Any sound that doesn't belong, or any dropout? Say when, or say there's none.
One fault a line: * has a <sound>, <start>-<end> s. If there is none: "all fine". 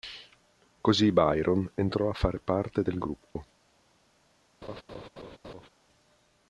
* has a dropout, 3.3-3.4 s
* has a laugh, 4.6-5.7 s